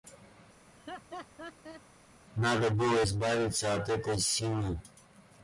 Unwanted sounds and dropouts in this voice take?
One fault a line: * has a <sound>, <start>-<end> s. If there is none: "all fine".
* has a laugh, 0.7-1.8 s